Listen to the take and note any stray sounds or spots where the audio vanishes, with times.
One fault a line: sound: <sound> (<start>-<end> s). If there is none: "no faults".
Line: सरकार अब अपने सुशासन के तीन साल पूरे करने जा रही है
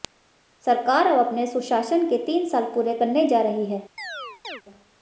sound: chirp (4.0-4.6 s)